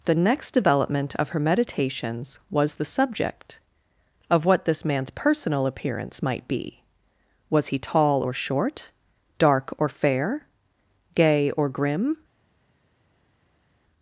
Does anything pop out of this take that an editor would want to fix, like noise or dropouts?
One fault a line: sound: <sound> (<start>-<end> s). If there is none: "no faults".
no faults